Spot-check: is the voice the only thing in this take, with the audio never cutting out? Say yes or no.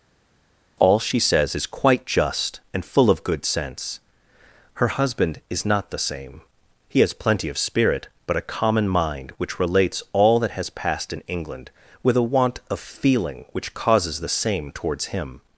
yes